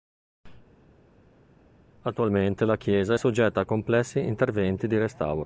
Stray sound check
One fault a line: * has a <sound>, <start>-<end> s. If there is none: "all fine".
all fine